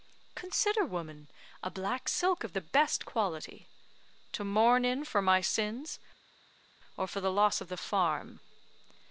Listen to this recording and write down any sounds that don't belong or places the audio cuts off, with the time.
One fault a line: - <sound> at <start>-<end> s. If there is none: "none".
none